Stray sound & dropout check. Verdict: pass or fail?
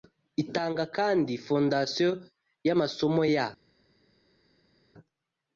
pass